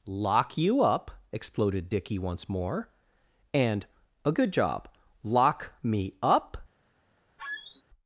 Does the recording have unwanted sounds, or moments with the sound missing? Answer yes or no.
yes